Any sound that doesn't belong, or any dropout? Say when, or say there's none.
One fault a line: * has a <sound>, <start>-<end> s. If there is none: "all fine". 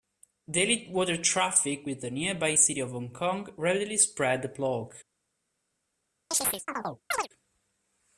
* has a chirp, 6.3-7.3 s